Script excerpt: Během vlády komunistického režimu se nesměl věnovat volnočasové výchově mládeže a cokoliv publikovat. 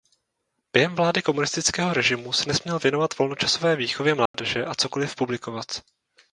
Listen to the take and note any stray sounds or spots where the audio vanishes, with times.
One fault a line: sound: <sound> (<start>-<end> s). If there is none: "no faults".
sound: dropout (4.3-4.3 s)